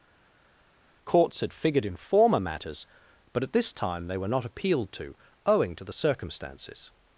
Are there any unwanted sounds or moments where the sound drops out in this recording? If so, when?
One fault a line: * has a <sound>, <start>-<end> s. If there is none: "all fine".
all fine